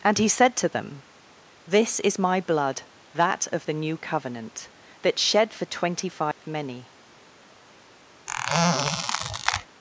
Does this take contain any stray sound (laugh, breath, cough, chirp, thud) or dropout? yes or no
yes